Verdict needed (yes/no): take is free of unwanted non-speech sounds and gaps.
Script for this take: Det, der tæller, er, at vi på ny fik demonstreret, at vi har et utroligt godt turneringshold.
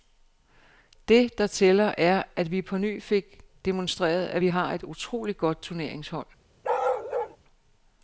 no